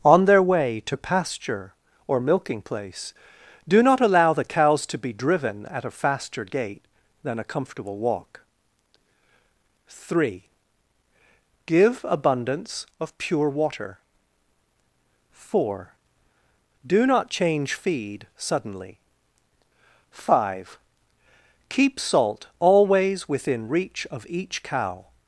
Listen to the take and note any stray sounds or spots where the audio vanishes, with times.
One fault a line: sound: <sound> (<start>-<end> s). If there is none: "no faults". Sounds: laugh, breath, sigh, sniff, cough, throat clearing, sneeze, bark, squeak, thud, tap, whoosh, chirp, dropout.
no faults